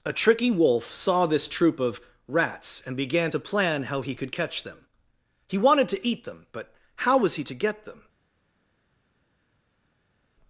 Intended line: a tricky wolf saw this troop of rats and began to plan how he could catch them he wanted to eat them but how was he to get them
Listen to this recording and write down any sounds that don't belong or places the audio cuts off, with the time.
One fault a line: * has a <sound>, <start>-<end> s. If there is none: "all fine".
all fine